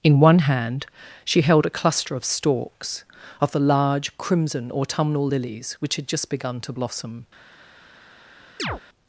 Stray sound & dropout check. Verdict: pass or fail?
fail